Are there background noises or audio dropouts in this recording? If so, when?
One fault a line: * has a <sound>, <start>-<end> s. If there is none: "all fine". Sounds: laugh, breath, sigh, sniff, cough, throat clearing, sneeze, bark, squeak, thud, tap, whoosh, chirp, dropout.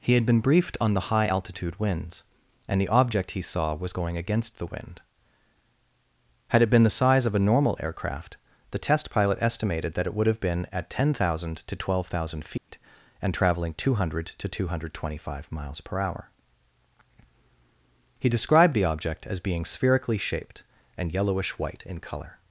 * has a dropout, 12.6-12.7 s